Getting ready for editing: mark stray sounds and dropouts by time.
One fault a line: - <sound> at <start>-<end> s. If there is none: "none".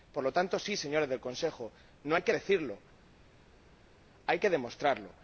none